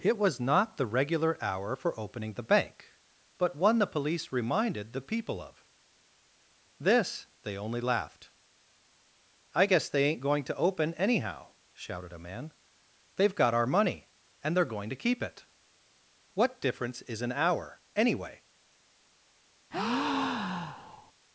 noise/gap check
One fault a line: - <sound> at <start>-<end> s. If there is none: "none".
- breath at 19.7-21.1 s